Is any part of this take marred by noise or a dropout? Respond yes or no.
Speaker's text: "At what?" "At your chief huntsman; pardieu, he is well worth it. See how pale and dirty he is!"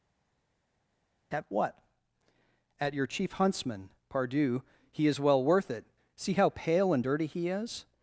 no